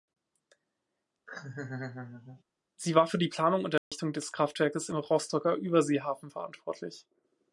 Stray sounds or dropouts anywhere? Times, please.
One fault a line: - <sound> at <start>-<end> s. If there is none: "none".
- laugh at 1.3-2.4 s
- dropout at 3.8-3.9 s